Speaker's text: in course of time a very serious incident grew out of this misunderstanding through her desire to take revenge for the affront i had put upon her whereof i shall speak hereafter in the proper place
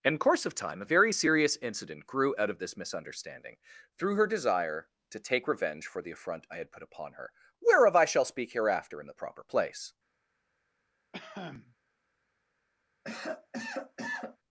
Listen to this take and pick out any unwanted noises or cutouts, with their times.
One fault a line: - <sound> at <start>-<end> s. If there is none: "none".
- cough at 11.1-11.8 s
- cough at 13.0-14.4 s